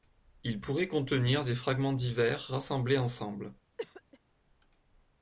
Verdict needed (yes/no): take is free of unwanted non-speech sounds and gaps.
no